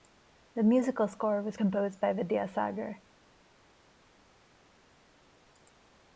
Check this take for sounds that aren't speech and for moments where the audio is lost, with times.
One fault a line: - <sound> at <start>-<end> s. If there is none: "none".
none